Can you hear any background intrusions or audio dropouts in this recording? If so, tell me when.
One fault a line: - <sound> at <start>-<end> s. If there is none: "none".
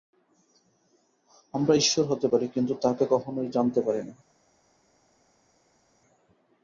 none